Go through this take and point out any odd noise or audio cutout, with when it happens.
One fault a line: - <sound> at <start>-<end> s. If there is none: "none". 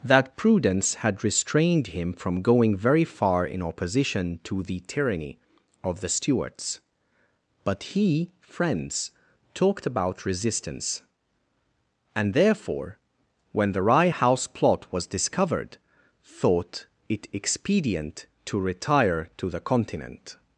none